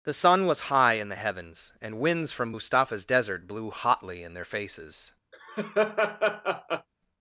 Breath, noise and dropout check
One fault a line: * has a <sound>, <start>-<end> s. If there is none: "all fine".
* has a laugh, 5.3-6.9 s